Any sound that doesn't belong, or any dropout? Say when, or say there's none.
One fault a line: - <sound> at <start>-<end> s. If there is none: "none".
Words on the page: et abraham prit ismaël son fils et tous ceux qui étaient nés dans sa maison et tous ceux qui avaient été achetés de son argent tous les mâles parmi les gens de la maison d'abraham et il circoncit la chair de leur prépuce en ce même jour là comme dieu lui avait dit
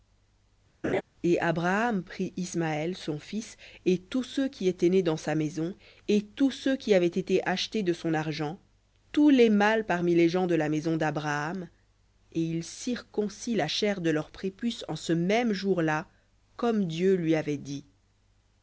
- laugh at 0.8-1.0 s